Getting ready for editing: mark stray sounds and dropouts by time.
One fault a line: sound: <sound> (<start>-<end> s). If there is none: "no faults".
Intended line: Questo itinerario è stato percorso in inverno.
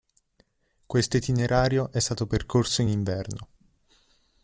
no faults